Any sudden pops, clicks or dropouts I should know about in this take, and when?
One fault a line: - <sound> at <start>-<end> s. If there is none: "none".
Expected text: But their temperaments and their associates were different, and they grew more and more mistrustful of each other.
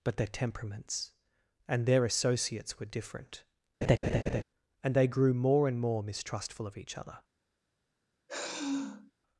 - laugh at 3.8-4.4 s
- sigh at 8.3-9.1 s